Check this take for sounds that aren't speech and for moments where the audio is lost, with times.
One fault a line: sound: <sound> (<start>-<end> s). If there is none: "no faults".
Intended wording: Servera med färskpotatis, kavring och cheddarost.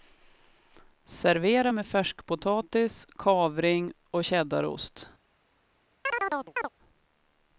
sound: chirp (6.0-6.7 s)